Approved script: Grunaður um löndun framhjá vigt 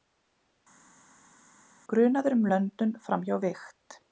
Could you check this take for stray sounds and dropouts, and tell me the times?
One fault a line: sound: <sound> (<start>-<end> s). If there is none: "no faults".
no faults